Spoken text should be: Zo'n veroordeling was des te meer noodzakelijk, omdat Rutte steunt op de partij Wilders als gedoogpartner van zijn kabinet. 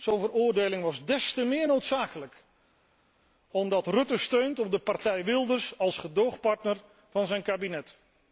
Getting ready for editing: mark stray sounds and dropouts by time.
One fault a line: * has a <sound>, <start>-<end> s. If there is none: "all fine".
all fine